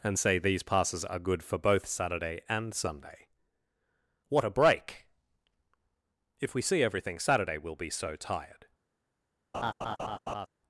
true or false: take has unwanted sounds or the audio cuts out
true